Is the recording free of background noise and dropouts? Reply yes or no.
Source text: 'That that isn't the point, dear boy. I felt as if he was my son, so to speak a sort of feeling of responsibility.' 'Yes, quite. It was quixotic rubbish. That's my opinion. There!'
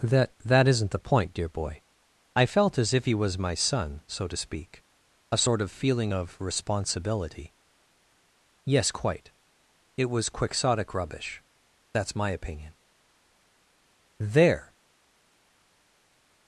yes